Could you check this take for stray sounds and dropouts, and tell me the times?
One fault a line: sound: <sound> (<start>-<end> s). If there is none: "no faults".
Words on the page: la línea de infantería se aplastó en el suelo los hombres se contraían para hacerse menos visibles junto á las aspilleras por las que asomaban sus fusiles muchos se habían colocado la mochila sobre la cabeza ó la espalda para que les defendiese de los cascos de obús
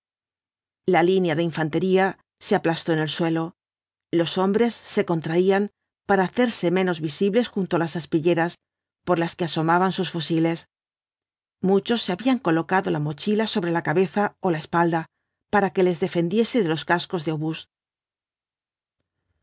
no faults